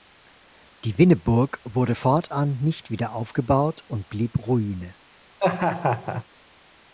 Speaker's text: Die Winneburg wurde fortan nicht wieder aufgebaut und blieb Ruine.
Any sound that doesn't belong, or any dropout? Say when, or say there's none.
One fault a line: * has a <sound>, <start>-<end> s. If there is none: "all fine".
* has a laugh, 5.4-6.2 s